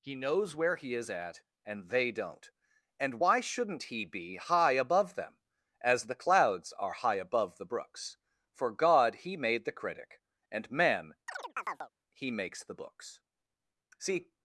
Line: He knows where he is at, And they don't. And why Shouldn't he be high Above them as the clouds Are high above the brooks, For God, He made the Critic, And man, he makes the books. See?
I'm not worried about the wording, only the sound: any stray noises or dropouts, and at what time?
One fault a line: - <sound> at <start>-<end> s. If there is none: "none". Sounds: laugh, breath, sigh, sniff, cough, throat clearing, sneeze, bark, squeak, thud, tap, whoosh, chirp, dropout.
- chirp at 11.3-11.9 s